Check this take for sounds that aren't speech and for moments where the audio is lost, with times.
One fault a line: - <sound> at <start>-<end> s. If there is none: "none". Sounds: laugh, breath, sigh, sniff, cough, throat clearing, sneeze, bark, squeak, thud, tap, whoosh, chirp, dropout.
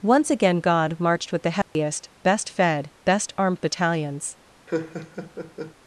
- dropout at 1.6-1.8 s
- laugh at 4.7-5.7 s